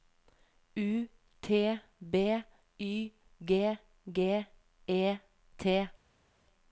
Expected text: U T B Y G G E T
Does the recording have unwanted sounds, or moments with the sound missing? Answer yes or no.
no